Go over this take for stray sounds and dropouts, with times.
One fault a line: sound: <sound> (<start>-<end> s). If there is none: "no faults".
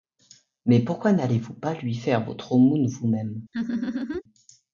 sound: laugh (3.5-4.2 s)